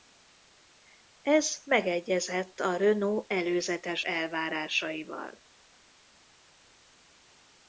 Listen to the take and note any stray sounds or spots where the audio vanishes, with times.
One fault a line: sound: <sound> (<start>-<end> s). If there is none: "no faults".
no faults